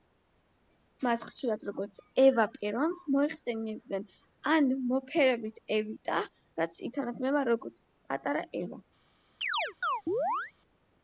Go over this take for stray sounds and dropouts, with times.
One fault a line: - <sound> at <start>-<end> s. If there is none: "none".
- chirp at 9.4-10.5 s